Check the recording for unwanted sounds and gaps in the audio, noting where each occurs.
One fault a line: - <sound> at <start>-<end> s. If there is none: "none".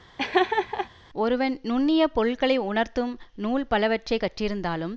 - laugh at 0.2-0.9 s